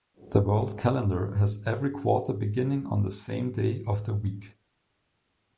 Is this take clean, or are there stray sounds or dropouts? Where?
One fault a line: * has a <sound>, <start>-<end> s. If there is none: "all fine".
all fine